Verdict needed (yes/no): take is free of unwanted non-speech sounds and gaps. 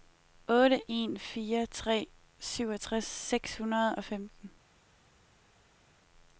yes